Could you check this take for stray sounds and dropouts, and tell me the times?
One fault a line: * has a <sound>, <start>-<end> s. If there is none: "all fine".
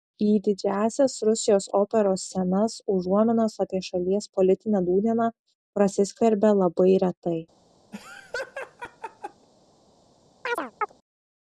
* has a laugh, 7.9-9.5 s
* has a chirp, 10.5-10.9 s